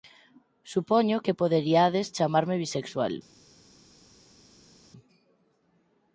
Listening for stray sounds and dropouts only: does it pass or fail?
pass